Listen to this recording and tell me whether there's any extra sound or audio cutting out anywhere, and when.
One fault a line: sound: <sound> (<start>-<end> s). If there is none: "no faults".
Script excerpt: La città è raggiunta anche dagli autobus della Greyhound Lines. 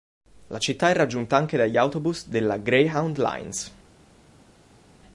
no faults